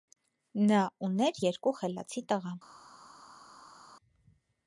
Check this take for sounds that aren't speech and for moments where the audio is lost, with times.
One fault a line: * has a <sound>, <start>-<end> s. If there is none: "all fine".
all fine